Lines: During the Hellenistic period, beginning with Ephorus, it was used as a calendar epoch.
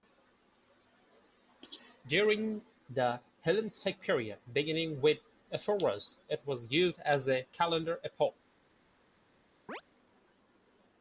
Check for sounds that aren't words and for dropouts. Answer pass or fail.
fail